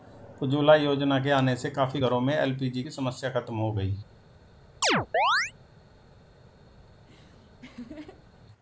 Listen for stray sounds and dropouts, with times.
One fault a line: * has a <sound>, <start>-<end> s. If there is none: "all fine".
* has a chirp, 4.8-5.5 s
* has a laugh, 6.9-8.4 s